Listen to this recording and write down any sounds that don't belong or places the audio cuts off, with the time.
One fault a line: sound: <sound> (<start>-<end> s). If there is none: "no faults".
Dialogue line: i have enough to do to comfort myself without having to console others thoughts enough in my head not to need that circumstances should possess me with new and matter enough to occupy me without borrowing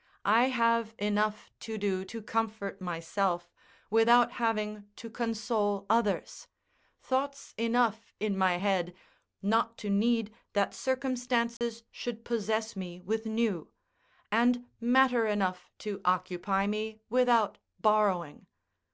sound: dropout (11.6-11.6 s)